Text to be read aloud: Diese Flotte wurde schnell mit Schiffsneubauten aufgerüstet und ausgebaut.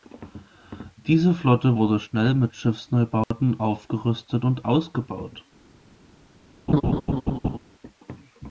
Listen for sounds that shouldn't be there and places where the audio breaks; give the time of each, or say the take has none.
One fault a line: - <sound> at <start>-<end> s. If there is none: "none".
- dropout at 3.2-3.3 s
- laugh at 6.7-7.6 s